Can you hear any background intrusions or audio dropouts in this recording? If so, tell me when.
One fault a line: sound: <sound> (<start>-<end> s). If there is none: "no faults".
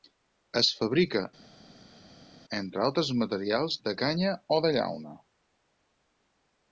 no faults